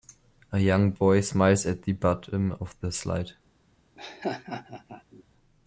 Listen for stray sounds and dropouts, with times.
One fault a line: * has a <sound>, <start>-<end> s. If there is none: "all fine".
* has a laugh, 4.0-5.2 s